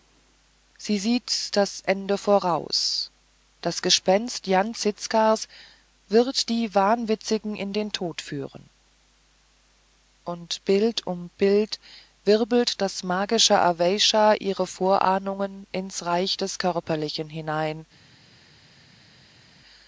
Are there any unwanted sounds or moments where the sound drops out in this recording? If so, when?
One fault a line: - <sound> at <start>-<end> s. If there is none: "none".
none